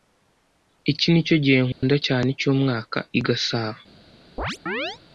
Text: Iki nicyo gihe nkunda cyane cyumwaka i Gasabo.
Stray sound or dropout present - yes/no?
yes